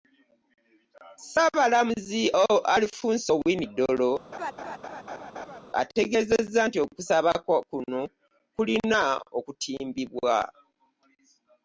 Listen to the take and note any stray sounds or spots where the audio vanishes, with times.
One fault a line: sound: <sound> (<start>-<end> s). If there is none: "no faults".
sound: laugh (4.3-5.6 s)